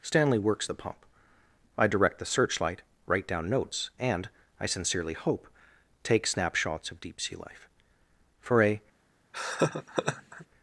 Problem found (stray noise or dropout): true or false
true